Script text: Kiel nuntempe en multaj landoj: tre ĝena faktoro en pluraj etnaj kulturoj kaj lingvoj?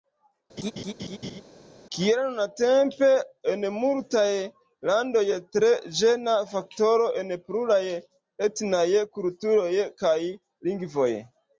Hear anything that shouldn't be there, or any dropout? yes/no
yes